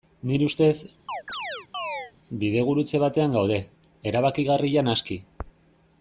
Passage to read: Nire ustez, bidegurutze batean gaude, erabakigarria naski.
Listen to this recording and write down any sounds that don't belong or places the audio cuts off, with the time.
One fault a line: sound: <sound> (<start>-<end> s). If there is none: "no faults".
sound: chirp (1.1-2.1 s)